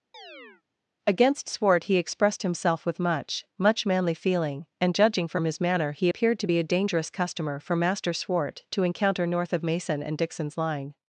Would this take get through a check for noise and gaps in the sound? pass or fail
fail